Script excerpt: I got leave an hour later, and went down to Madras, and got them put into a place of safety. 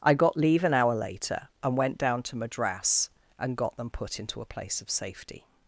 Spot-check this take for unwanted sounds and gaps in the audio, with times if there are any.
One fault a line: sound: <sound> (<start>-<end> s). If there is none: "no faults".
no faults